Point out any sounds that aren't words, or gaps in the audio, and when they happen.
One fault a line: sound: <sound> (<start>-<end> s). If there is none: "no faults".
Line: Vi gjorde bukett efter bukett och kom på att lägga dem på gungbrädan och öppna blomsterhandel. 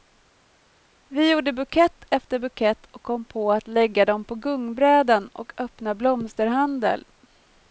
no faults